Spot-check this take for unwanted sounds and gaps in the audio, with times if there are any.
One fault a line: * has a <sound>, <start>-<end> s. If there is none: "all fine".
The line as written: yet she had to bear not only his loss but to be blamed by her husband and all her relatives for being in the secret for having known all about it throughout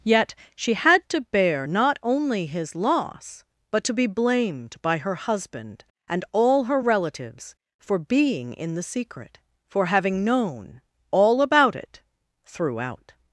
all fine